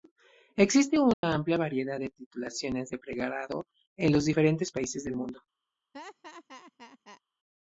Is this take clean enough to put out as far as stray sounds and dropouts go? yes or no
no